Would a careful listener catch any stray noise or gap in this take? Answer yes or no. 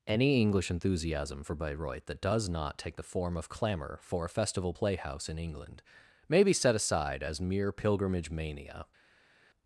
no